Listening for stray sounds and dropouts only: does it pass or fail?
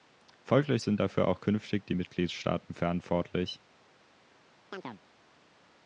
fail